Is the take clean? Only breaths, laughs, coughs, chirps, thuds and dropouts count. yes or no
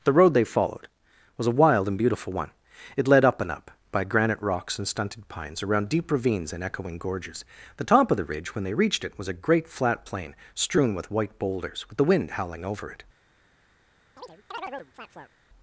no